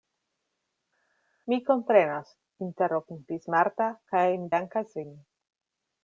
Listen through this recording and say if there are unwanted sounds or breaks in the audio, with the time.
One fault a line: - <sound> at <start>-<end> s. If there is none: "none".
none